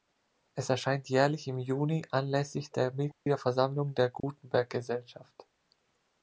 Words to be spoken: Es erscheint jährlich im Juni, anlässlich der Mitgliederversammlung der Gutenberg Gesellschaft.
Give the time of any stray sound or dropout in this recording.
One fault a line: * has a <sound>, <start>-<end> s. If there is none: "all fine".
* has a dropout, 3.1-3.3 s
* has a dropout, 4.2-4.2 s